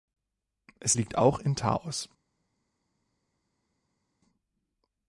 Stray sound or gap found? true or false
false